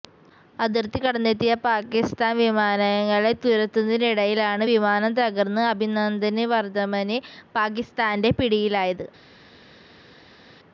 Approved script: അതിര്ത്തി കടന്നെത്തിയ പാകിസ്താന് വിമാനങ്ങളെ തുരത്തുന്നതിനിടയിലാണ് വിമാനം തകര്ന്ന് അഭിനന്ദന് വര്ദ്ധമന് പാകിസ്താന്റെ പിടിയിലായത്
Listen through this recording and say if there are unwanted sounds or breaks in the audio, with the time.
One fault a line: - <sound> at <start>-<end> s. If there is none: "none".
none